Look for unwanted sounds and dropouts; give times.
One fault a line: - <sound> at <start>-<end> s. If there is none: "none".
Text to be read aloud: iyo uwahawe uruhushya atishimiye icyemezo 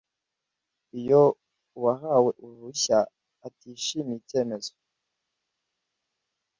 none